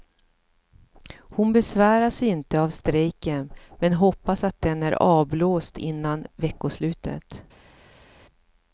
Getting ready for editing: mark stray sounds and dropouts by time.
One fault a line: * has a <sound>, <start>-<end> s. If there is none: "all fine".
all fine